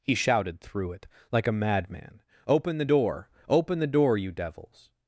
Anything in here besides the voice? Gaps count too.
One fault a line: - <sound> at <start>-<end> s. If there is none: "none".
none